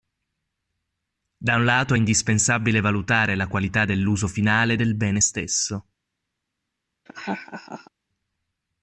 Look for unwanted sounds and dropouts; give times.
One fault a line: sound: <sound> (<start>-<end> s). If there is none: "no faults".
sound: laugh (7.1-7.9 s)